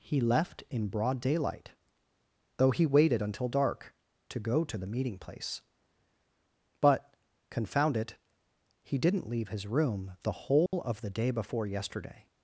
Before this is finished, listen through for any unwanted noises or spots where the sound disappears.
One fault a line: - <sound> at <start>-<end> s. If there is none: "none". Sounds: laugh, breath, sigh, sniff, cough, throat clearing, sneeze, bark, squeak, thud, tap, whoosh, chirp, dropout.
- dropout at 10.7-10.7 s